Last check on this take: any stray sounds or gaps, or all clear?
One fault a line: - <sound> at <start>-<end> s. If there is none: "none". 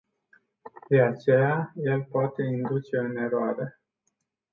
none